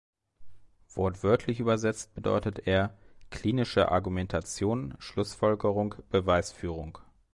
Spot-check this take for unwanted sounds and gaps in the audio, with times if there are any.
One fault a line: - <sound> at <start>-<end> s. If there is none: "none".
none